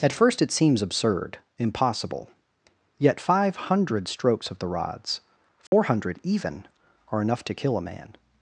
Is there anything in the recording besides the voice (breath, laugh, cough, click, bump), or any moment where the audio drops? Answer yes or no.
yes